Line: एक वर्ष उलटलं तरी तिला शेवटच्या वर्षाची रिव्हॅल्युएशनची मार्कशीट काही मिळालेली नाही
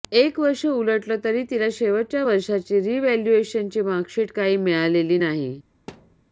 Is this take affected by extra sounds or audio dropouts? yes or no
yes